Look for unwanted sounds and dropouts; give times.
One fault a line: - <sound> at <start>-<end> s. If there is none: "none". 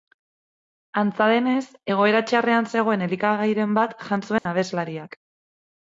- dropout at 4.4-4.5 s